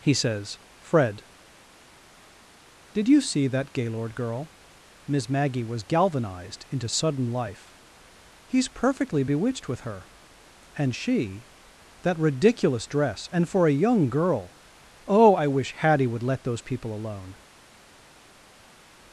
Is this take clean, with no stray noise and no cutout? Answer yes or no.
yes